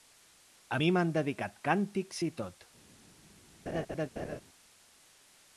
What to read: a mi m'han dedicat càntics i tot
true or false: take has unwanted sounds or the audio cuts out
true